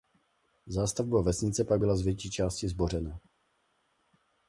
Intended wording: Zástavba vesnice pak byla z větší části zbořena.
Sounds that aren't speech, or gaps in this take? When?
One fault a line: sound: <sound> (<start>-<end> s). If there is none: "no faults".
no faults